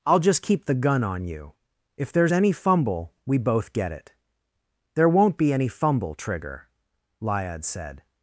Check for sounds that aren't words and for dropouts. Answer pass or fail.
pass